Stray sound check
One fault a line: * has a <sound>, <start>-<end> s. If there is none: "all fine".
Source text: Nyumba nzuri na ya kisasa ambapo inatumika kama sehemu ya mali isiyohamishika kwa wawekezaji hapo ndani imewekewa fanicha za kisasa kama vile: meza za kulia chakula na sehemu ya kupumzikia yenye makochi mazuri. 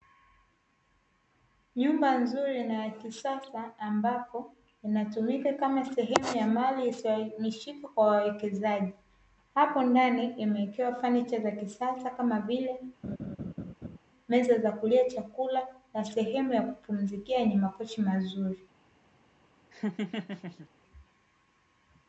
* has a laugh, 13.0-14.0 s
* has a laugh, 19.7-20.7 s